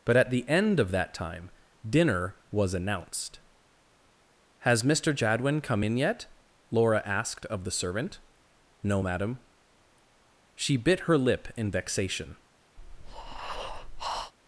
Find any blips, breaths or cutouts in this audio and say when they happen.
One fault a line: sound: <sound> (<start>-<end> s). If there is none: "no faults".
sound: breath (12.8-14.3 s)